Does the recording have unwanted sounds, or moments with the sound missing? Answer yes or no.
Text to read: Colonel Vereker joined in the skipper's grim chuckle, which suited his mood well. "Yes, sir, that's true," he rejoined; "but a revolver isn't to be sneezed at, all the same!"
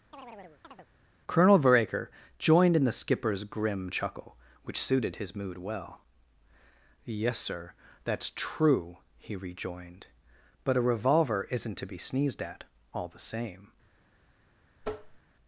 yes